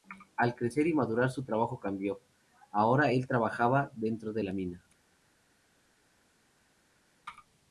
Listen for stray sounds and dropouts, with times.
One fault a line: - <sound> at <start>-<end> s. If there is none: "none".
none